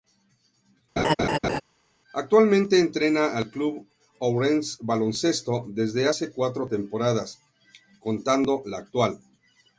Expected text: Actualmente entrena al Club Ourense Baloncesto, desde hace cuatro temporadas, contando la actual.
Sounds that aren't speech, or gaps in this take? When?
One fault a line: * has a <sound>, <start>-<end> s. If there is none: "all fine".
* has a laugh, 1.0-1.6 s